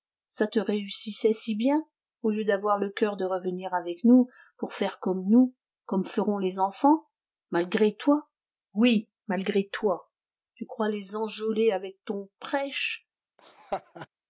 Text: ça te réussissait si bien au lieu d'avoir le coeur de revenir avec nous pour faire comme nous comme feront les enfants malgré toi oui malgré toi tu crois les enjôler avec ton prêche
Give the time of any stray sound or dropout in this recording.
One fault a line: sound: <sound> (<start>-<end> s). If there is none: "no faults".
sound: laugh (13.4-14.1 s)